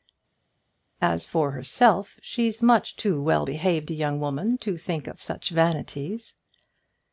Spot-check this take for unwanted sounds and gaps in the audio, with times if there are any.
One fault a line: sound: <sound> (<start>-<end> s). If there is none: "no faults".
no faults